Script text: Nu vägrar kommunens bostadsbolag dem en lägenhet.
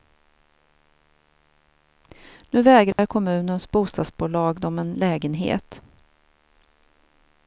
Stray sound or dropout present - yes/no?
yes